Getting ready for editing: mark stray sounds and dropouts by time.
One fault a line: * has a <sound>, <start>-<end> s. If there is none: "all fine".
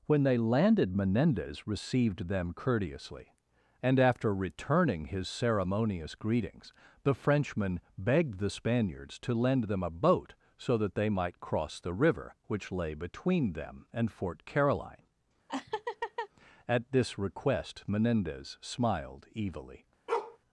* has a laugh, 15.5-16.3 s
* has a bark, 20.1-20.4 s